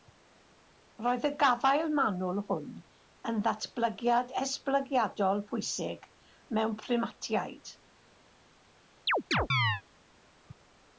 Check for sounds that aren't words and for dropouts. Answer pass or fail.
fail